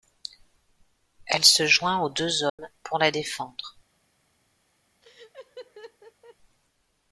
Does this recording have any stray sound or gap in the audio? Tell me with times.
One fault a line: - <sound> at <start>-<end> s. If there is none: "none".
- dropout at 2.5-2.6 s
- laugh at 5.0-6.4 s